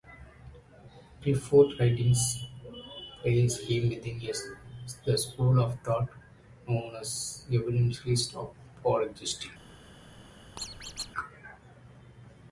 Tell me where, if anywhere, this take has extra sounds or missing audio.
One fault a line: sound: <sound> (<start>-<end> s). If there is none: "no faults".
sound: squeak (10.6-11.1 s)